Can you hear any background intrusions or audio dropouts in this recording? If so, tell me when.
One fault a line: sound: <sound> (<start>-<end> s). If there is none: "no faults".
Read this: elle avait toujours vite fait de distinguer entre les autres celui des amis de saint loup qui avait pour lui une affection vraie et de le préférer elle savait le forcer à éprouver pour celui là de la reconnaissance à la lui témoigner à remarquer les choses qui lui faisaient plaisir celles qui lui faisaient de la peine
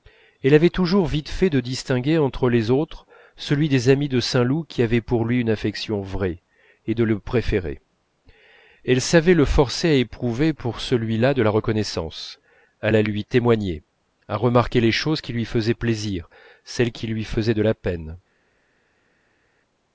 no faults